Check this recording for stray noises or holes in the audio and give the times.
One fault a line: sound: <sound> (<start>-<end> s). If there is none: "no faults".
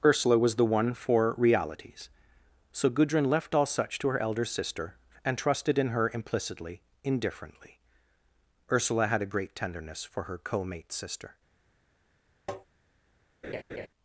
sound: tap (12.5-12.7 s)
sound: laugh (13.4-13.9 s)